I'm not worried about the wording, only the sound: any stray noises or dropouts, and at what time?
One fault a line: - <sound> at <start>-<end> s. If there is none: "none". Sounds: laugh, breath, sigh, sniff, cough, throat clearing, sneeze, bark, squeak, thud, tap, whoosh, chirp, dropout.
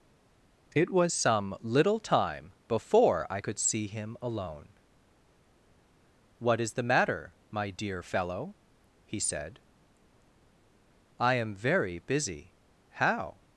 none